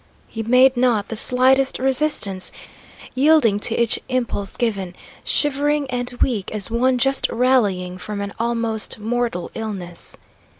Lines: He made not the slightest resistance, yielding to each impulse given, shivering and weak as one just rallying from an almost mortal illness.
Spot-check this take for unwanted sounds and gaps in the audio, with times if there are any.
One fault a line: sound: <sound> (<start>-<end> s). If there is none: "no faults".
no faults